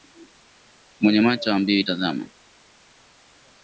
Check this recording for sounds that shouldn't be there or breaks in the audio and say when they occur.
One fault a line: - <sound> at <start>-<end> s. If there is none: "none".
none